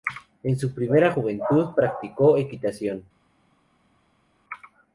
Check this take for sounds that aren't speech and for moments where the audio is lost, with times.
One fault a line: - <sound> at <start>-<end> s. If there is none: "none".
none